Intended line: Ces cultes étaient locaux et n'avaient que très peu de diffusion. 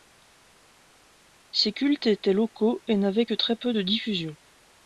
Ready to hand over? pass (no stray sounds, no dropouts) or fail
pass